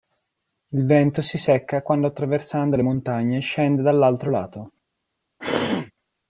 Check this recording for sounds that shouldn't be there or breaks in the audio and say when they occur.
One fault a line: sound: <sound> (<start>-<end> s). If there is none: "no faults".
sound: throat clearing (5.4-5.9 s)